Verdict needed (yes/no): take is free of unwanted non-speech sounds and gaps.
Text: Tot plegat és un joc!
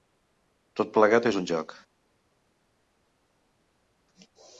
yes